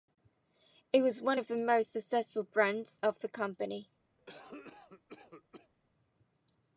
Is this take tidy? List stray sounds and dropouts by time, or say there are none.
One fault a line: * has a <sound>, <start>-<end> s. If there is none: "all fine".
* has a cough, 4.2-5.7 s